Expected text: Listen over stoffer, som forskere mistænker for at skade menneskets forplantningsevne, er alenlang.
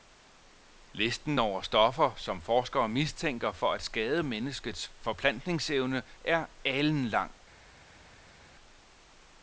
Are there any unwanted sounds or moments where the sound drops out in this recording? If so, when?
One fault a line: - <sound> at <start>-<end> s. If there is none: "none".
none